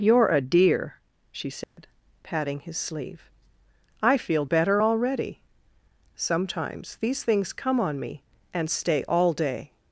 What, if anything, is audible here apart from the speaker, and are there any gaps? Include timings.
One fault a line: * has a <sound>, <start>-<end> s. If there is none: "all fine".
* has a dropout, 1.6-1.8 s